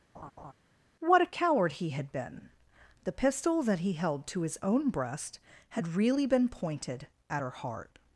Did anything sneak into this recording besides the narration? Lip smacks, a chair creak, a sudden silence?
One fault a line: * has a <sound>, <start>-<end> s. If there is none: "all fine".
* has a laugh, 0.1-0.5 s